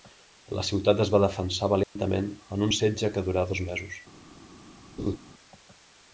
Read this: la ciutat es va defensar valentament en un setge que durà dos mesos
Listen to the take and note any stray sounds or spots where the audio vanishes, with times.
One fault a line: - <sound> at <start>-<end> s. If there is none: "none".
- dropout at 1.8-2.0 s
- laugh at 5.0-5.2 s